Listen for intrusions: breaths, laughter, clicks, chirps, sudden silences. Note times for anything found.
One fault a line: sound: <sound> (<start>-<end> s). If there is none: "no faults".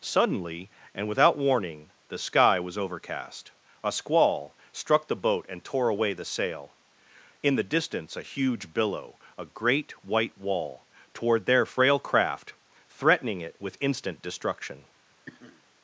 sound: sniff (15.3-15.6 s)